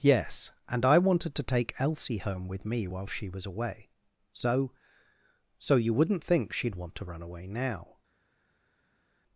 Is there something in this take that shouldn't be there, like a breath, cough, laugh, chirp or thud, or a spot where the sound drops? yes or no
no